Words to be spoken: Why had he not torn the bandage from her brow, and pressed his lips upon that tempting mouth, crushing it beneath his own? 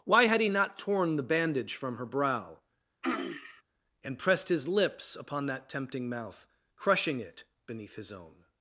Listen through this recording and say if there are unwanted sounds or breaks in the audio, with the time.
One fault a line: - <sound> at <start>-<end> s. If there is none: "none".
- throat clearing at 3.0-3.6 s